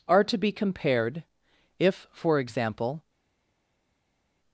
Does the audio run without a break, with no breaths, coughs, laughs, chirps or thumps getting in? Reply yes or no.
yes